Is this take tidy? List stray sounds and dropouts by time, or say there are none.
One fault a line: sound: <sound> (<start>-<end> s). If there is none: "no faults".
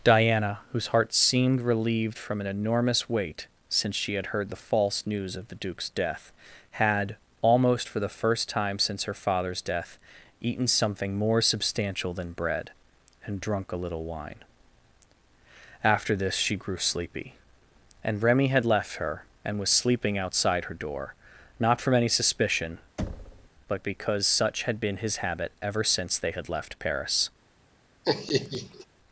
sound: thud (23.0-23.5 s)
sound: laugh (28.0-28.9 s)